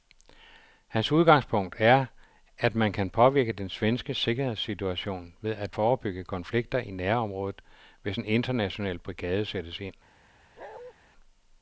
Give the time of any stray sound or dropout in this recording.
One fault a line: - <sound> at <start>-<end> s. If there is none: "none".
- bark at 10.6-10.9 s